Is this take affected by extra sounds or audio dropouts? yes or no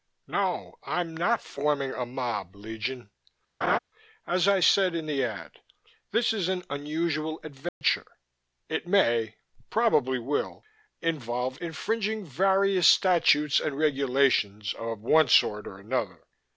yes